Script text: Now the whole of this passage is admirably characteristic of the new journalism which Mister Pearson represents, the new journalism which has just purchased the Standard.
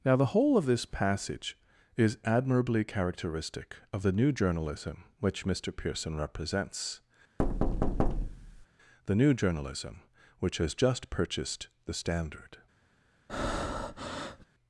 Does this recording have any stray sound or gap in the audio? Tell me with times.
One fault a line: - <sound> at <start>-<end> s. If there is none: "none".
- thud at 7.4-8.7 s
- breath at 13.3-14.5 s